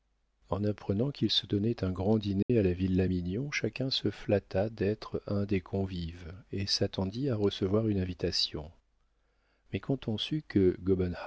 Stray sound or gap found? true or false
true